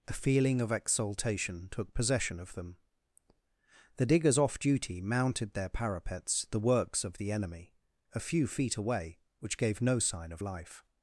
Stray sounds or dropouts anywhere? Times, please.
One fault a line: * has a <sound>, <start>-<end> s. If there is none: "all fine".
all fine